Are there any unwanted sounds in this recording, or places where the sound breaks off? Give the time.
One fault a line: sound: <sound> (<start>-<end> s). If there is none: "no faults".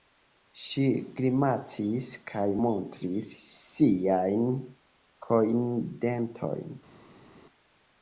no faults